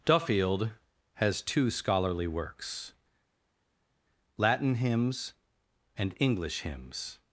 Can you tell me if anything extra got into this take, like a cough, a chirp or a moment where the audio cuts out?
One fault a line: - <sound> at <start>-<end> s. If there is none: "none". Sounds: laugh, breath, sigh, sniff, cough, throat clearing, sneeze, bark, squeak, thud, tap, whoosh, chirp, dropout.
none